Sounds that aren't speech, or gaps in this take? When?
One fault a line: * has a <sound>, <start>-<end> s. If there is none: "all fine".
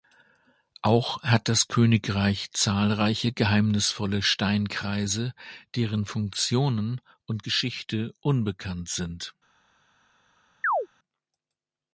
* has a chirp, 10.6-10.9 s